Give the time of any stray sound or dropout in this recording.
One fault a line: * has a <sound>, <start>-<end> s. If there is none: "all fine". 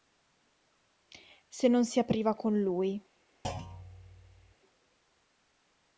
* has a thud, 3.4-4.5 s